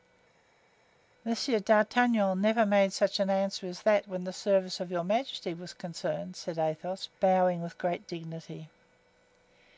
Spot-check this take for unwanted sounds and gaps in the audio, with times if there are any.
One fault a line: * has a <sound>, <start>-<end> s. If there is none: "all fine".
all fine